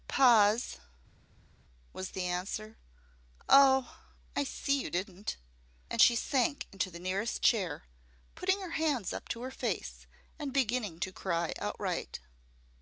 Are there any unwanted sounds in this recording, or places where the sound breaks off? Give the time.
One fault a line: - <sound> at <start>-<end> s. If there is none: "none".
none